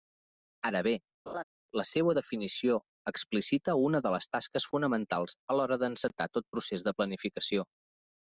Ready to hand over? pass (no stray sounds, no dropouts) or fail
fail